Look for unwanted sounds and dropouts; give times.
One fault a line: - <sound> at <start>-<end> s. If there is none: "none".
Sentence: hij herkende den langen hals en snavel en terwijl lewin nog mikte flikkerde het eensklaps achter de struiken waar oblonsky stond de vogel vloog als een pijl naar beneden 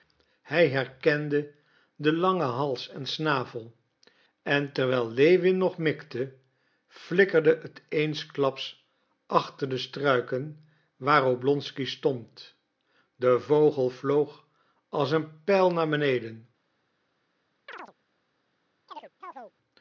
- chirp at 17.7-17.9 s
- chirp at 18.9-19.5 s